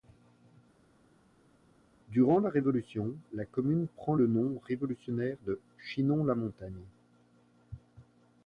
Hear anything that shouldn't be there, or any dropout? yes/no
no